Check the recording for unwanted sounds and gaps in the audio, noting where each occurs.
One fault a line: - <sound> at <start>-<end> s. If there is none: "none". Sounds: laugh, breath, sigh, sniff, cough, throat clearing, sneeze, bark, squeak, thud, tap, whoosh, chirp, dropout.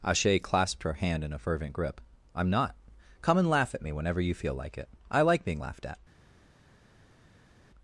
none